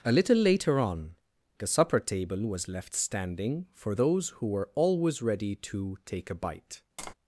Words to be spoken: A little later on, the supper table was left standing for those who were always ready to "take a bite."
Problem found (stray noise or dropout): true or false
true